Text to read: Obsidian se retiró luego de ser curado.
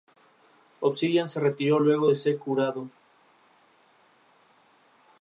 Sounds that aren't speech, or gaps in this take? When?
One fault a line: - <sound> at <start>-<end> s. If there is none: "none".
none